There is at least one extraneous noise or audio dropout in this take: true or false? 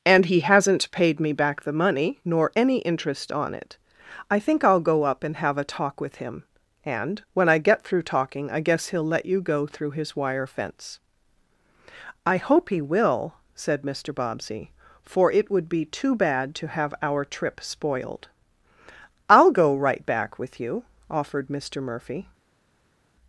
false